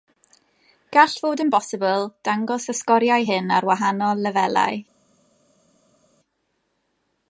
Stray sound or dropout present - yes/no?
no